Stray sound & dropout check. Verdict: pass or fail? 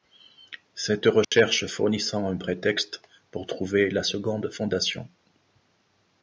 fail